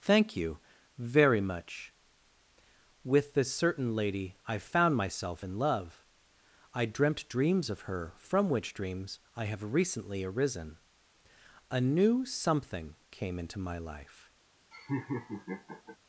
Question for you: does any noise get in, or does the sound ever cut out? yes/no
yes